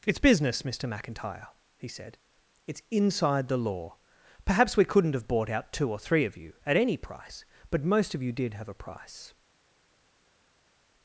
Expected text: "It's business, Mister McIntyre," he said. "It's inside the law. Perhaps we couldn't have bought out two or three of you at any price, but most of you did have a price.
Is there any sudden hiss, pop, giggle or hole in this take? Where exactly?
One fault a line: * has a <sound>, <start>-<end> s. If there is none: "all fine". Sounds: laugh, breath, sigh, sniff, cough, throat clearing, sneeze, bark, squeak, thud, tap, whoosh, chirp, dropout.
all fine